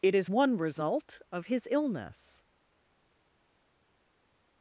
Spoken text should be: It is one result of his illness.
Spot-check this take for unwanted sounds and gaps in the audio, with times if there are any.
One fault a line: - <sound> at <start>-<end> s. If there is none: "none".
none